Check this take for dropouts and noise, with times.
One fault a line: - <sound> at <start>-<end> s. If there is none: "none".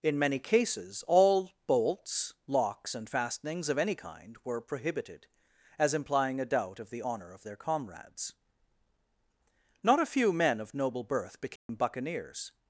- dropout at 11.6-11.7 s